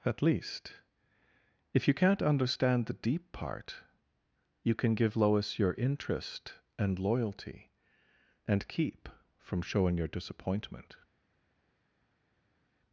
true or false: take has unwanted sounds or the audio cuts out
false